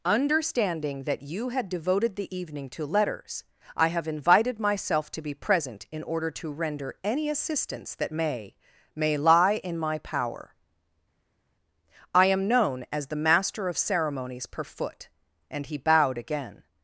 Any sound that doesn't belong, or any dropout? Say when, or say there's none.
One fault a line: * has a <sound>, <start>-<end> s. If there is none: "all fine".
all fine